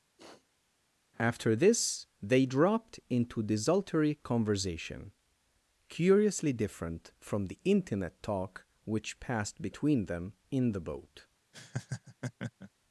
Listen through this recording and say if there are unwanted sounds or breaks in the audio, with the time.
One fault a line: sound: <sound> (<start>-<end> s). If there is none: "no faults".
sound: sniff (0.2-0.7 s)
sound: laugh (11.5-12.7 s)